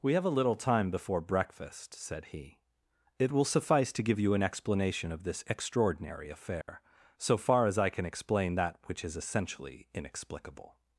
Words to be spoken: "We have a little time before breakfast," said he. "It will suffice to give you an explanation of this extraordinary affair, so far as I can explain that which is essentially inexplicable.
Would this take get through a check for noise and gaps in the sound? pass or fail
fail